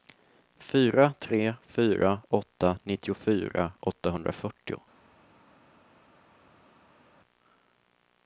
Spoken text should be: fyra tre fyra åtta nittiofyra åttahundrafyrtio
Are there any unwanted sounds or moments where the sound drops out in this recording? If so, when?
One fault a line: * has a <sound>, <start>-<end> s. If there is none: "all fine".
all fine